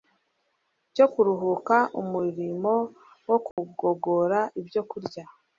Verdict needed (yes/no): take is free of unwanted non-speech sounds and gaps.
no